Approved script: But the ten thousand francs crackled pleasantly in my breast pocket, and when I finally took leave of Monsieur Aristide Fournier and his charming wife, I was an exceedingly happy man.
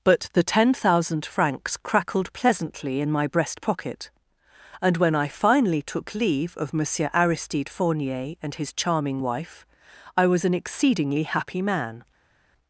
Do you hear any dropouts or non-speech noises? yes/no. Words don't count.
no